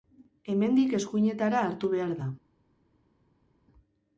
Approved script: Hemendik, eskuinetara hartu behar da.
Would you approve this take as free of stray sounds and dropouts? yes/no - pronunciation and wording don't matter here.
yes